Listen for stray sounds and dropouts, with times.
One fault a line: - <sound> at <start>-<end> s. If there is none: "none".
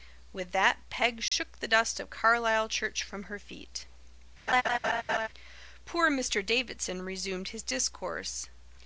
- dropout at 1.3-1.3 s
- laugh at 4.5-5.3 s